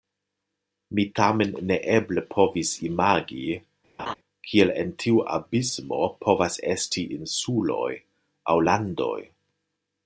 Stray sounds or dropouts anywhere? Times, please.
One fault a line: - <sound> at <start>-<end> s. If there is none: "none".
- laugh at 4.0-4.1 s